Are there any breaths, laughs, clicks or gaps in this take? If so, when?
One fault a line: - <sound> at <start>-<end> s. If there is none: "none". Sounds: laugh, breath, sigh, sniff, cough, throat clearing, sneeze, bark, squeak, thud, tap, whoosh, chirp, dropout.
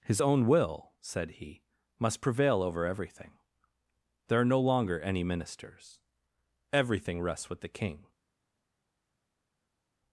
none